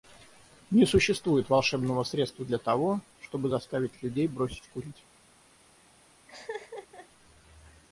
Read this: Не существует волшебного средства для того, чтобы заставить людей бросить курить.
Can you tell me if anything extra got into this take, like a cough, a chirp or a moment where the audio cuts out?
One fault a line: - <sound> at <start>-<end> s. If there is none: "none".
- laugh at 6.3-7.1 s